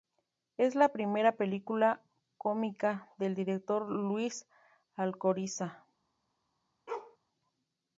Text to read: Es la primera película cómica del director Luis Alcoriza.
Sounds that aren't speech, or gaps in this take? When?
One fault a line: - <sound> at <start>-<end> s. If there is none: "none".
- bark at 6.9-7.2 s